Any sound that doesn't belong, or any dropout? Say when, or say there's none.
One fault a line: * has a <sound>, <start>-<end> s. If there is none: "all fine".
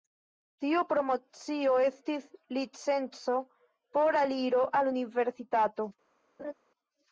* has a laugh, 6.4-6.5 s